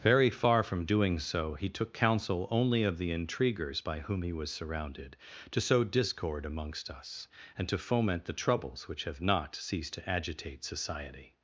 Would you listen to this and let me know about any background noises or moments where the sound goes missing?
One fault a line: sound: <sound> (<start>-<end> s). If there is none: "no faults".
no faults